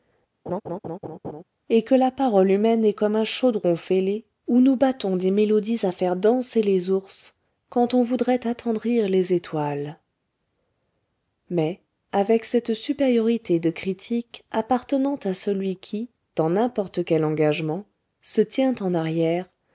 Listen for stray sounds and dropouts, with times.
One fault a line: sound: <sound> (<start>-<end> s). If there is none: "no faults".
sound: laugh (0.5-1.4 s)